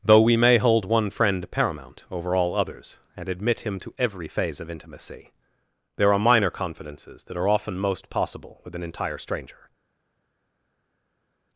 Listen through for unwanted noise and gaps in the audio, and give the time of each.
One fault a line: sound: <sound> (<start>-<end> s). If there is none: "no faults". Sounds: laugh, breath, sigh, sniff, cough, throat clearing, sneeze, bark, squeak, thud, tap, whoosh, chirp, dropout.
no faults